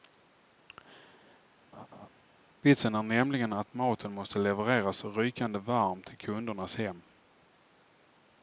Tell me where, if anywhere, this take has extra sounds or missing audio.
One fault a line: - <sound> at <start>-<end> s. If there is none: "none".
- laugh at 1.7-2.1 s